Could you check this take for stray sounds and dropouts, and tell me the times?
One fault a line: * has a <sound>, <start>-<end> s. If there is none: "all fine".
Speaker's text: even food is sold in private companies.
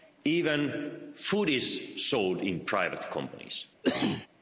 * has a cough, 3.8-4.3 s